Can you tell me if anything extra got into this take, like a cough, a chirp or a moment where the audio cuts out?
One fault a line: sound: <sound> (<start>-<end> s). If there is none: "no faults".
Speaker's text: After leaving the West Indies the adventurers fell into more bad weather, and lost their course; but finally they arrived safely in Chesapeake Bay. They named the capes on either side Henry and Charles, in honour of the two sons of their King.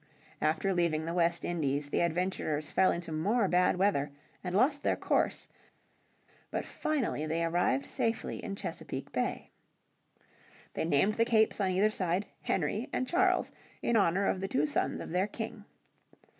no faults